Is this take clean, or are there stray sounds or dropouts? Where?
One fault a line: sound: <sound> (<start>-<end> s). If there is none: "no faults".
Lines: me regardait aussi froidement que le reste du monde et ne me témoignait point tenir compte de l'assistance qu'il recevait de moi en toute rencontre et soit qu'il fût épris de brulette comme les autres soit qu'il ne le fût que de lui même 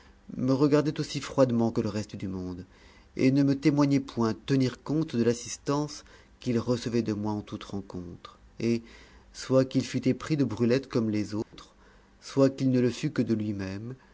sound: dropout (11.4-11.5 s)